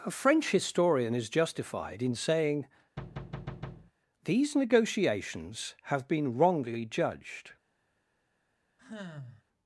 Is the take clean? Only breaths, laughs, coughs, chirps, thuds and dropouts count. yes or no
no